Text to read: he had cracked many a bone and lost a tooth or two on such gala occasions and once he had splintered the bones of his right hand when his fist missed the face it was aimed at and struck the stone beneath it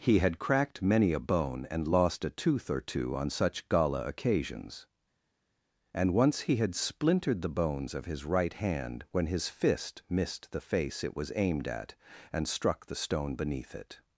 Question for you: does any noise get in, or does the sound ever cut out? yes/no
no